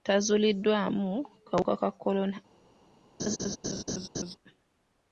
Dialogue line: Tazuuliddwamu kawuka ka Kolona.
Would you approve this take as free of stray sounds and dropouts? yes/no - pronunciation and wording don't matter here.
no